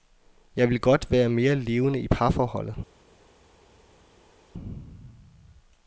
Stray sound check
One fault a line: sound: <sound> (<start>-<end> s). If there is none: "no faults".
no faults